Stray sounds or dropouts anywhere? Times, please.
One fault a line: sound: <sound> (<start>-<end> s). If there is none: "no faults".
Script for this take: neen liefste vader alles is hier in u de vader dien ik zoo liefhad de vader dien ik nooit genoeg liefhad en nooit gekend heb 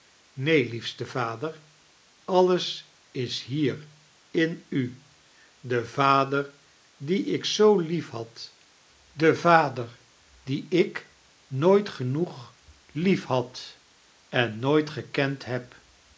no faults